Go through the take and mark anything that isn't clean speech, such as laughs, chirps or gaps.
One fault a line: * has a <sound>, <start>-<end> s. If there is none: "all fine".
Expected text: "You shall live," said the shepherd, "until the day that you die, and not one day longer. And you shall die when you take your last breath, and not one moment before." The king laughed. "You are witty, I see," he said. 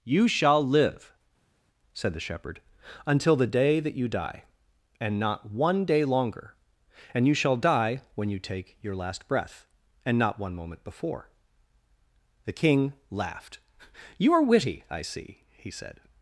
all fine